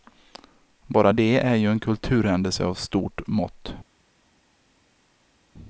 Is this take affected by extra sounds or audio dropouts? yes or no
no